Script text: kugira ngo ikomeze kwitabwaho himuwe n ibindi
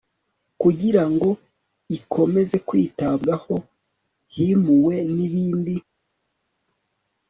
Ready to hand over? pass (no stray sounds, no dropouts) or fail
pass